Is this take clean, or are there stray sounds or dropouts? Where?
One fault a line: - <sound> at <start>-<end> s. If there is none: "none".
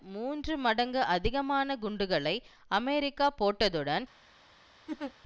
- laugh at 4.9-5.1 s